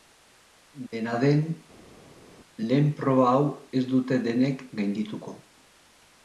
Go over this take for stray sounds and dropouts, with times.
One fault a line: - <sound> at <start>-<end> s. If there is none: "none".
none